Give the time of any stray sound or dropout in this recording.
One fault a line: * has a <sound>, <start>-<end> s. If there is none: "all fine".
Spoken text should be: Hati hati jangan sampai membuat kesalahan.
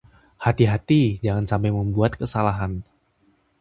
all fine